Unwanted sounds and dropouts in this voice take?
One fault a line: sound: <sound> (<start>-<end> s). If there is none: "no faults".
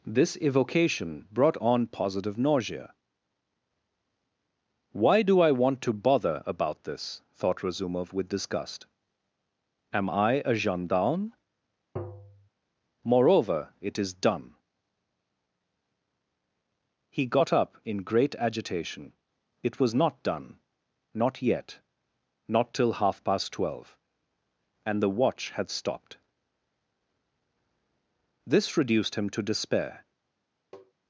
sound: tap (12.0-12.5 s)
sound: tap (30.7-30.9 s)